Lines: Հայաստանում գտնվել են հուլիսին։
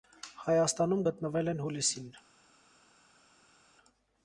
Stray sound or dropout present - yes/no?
no